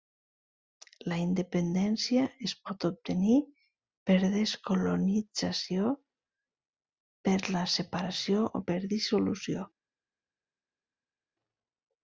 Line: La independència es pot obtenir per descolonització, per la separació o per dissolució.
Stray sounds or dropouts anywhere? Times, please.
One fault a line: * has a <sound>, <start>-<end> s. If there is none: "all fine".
all fine